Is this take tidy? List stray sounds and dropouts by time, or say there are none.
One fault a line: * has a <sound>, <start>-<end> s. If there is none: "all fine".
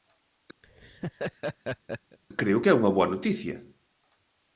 * has a laugh, 0.6-2.2 s